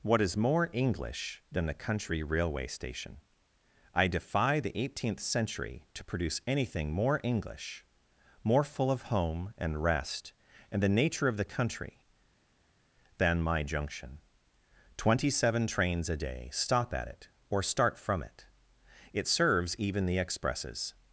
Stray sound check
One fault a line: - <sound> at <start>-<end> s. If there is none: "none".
none